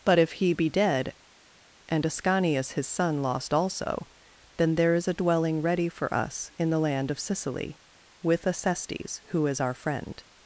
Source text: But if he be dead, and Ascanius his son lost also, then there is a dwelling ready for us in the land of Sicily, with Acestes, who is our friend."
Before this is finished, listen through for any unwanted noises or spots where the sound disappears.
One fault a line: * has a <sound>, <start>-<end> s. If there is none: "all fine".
all fine